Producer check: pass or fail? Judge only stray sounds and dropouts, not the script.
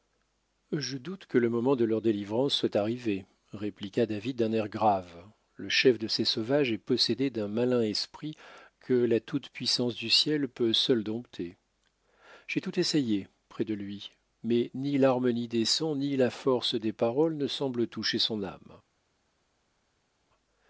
pass